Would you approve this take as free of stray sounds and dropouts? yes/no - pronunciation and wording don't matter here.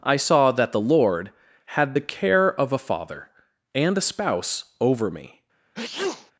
no